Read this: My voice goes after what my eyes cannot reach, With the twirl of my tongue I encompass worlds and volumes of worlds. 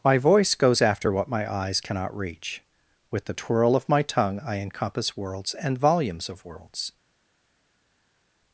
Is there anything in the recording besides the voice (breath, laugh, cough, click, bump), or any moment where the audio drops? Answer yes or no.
no